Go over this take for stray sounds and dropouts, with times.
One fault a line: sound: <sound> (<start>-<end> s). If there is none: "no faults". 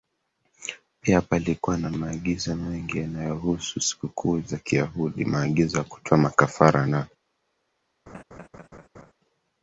sound: laugh (8.1-9.1 s)